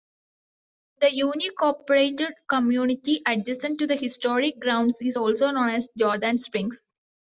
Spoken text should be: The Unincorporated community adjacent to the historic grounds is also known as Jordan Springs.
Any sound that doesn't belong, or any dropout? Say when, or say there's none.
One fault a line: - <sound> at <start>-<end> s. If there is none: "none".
none